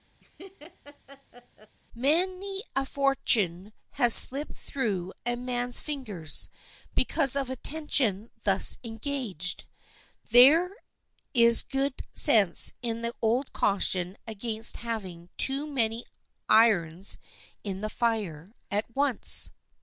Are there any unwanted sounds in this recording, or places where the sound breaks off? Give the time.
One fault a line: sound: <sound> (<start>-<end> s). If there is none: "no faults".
sound: laugh (0.2-1.8 s)